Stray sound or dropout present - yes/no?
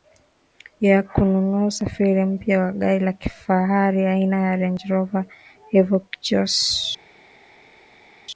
no